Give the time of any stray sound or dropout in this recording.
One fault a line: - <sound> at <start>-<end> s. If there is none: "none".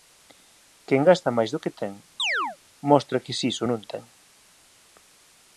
- chirp at 2.2-2.6 s